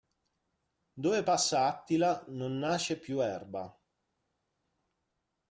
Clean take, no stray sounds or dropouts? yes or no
yes